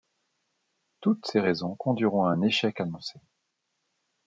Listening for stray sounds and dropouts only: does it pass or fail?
pass